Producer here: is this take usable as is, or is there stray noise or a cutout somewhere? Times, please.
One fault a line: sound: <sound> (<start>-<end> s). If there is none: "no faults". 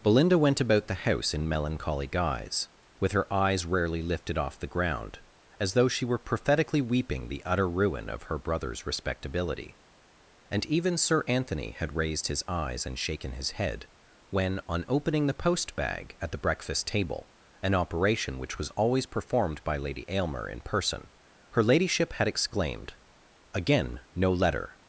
no faults